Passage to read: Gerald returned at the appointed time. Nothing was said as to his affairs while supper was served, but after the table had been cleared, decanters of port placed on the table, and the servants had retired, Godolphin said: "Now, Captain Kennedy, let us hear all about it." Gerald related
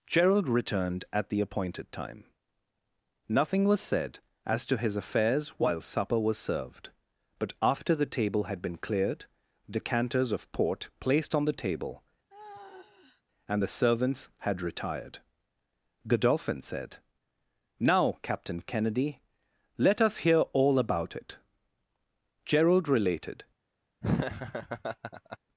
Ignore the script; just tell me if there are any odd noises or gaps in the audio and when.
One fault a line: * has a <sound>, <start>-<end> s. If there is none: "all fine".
* has a sigh, 12.3-13.2 s
* has a laugh, 24.0-25.4 s